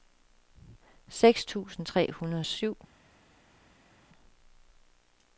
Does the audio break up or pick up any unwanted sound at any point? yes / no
no